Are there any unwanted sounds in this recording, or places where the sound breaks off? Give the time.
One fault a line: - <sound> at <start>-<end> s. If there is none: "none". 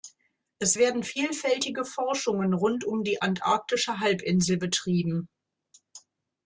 none